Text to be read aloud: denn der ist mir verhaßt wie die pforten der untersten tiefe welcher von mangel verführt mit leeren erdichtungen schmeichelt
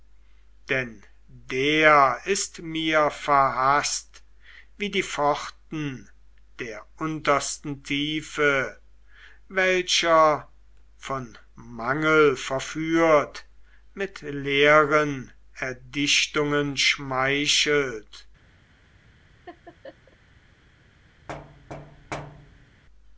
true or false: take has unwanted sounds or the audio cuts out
true